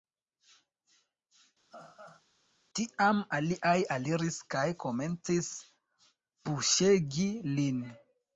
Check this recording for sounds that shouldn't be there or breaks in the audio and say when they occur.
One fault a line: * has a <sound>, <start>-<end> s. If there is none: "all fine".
* has a laugh, 1.7-2.2 s